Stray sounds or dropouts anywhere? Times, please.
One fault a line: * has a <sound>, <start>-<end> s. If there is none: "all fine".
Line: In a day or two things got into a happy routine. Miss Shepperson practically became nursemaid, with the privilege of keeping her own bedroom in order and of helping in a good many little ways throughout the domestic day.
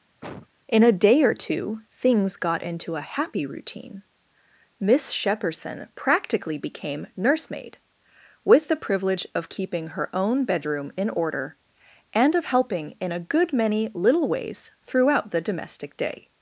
* has a cough, 0.2-0.5 s